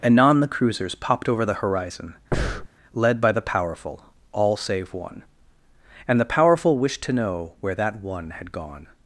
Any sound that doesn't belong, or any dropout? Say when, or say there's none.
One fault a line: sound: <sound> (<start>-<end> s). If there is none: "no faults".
sound: breath (2.3-2.7 s)